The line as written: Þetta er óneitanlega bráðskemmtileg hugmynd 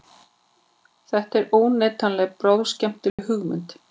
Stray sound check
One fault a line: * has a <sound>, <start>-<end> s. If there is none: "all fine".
* has a dropout, 3.1-3.2 s